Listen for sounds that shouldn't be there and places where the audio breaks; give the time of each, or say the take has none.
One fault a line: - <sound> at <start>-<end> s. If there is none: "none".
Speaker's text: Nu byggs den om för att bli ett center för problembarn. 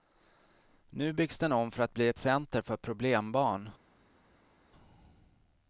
none